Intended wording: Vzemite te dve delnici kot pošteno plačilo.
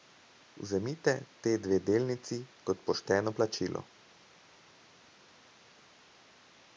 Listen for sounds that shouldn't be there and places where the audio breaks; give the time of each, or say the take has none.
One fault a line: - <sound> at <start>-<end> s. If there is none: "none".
none